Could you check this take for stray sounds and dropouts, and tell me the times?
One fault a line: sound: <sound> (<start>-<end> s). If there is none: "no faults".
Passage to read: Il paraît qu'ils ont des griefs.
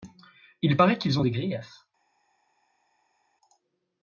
no faults